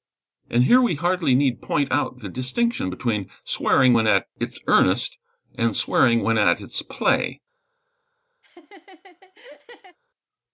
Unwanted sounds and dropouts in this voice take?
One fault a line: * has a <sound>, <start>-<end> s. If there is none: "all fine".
* has a laugh, 8.4-10.0 s